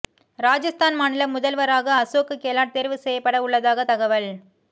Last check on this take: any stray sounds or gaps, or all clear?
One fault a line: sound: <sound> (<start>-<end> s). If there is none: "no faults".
no faults